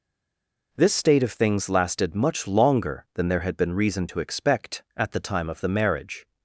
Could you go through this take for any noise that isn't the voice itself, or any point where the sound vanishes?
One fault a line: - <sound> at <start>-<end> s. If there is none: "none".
none